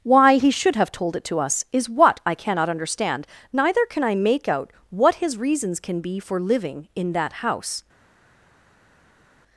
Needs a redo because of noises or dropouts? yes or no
no